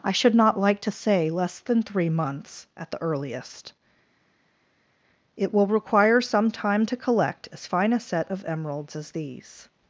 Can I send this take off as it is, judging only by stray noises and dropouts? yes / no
yes